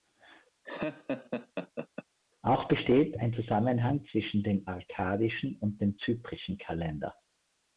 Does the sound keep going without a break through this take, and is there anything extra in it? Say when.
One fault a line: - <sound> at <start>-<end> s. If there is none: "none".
- laugh at 0.6-2.0 s